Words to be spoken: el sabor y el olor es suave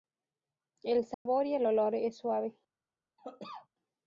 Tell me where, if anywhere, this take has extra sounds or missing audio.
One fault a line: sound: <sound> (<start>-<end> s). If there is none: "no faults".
sound: dropout (1.1-1.3 s)
sound: cough (3.2-3.7 s)